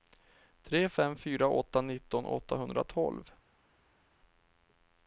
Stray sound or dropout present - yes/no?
no